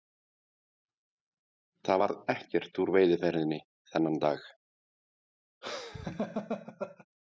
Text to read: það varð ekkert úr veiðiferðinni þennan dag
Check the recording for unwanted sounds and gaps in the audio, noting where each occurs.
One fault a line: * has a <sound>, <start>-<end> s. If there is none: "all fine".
* has a laugh, 5.6-7.1 s